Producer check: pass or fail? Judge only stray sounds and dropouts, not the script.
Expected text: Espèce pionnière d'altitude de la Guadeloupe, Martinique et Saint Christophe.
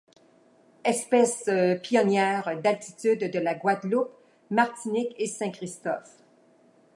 pass